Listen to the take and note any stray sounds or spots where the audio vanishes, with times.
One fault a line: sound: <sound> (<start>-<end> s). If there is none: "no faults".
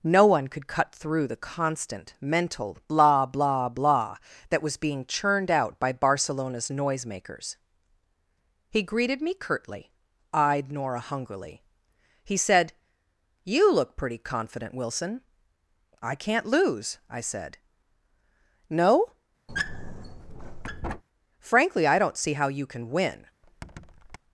sound: squeak (19.5-21.0 s)
sound: squeak (23.4-24.2 s)